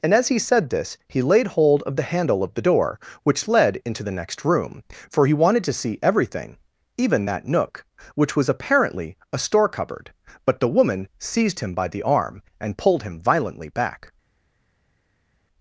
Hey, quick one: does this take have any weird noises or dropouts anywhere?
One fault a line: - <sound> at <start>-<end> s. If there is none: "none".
none